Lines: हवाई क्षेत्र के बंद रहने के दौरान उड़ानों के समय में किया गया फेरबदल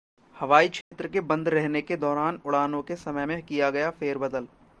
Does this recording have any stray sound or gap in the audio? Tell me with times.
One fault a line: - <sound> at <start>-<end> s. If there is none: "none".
- dropout at 0.8-0.9 s